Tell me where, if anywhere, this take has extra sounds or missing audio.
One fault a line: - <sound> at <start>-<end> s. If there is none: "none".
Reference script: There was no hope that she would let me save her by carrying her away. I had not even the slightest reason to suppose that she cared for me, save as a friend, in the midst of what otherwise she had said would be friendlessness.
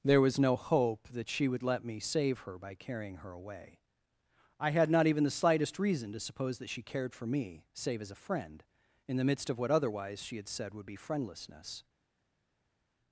none